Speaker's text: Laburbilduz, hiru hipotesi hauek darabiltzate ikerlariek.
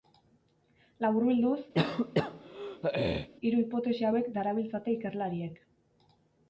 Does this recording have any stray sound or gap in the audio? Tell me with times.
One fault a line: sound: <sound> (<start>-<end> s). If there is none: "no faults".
sound: throat clearing (1.7-3.3 s)